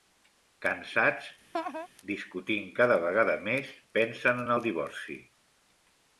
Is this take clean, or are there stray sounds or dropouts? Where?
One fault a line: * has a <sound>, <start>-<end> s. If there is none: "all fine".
* has a laugh, 1.5-1.9 s